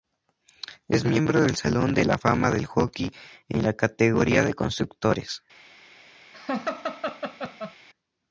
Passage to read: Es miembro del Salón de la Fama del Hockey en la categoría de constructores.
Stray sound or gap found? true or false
true